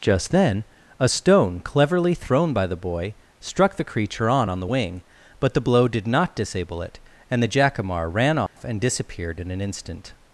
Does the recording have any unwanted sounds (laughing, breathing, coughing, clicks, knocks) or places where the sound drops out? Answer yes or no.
yes